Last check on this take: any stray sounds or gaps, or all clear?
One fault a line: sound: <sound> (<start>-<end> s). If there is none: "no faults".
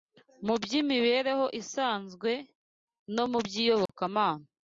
sound: dropout (3.9-3.9 s)